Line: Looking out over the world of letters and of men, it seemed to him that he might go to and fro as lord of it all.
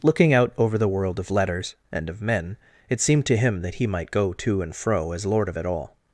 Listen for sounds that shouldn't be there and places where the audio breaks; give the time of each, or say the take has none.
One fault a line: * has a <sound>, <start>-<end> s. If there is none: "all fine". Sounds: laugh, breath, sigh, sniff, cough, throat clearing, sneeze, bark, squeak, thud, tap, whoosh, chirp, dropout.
all fine